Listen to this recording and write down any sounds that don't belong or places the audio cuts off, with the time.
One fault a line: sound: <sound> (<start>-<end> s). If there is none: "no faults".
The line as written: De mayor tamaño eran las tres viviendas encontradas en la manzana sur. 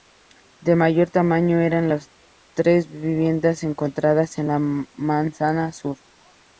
no faults